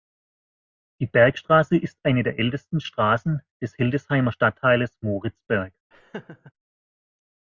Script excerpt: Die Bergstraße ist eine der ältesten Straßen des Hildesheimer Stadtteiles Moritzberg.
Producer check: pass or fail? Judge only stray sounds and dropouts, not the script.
fail